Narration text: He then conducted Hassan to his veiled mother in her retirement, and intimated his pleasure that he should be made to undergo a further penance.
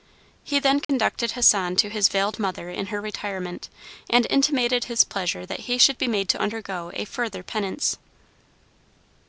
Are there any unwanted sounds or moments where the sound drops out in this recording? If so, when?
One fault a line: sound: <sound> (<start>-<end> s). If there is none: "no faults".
sound: dropout (0.8-0.9 s)